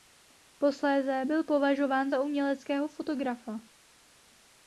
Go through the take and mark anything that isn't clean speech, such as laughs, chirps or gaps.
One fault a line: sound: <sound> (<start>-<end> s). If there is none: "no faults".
no faults